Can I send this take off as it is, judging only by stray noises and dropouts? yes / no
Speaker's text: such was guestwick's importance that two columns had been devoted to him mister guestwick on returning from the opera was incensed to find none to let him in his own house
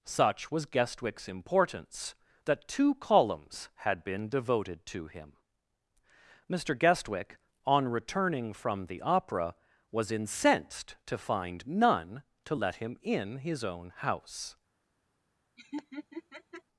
no